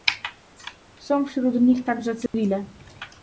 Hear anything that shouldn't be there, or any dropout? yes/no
yes